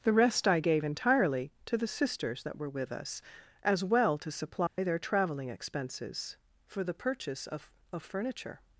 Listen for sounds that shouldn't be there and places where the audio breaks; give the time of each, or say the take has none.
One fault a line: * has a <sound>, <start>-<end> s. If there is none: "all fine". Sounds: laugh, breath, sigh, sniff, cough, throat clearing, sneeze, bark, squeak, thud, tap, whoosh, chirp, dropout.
* has a dropout, 4.7-4.8 s